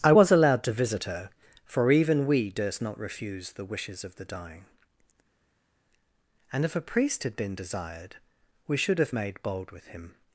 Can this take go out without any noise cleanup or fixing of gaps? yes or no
yes